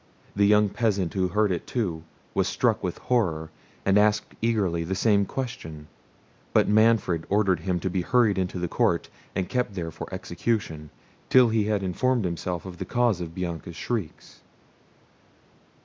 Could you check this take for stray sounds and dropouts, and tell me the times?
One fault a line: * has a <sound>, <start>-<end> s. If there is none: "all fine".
all fine